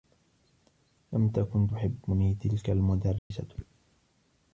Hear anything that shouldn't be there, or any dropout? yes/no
yes